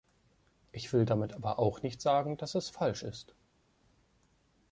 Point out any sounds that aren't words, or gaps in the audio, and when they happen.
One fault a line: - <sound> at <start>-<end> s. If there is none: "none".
none